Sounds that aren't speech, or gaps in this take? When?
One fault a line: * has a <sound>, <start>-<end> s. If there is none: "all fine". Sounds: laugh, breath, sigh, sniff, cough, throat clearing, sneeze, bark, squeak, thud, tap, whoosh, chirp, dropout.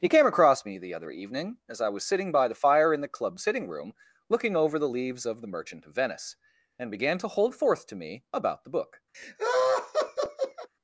* has a laugh, 9.1-10.7 s